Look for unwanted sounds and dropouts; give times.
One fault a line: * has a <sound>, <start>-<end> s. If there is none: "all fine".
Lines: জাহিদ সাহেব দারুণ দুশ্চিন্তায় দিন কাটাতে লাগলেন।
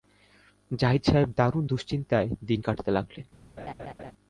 * has a laugh, 3.6-4.1 s